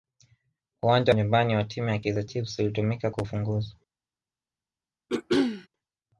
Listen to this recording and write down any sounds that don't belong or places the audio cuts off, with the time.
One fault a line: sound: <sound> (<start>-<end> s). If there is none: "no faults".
sound: throat clearing (5.1-5.7 s)